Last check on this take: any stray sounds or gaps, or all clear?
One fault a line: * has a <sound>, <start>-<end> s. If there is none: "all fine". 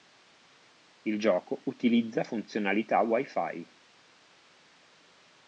all fine